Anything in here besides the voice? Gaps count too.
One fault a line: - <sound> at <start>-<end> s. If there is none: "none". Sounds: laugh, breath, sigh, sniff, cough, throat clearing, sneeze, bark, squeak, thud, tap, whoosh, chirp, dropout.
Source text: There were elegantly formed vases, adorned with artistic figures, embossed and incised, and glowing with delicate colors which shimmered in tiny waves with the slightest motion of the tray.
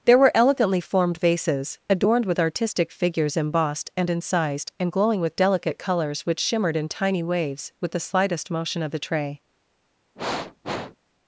- sniff at 10.1-11.0 s